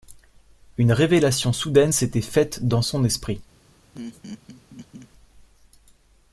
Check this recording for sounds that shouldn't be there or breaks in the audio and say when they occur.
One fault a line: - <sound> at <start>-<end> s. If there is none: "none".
- laugh at 3.9-5.1 s